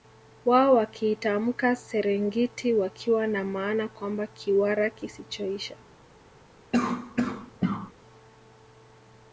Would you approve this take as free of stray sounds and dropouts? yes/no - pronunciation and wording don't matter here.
no